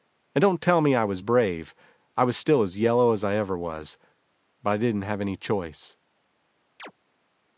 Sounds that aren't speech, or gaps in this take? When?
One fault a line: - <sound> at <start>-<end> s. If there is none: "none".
- chirp at 6.8-6.9 s